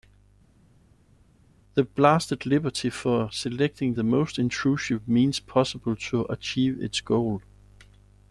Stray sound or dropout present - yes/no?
no